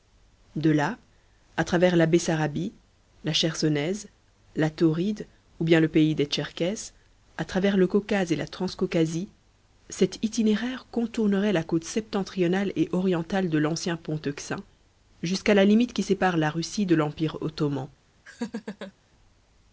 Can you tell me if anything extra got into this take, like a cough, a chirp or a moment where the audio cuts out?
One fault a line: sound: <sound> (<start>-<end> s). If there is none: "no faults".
sound: laugh (18.3-18.9 s)